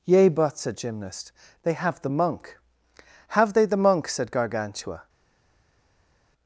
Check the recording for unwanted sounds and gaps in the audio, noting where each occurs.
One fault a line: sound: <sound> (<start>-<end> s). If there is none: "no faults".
no faults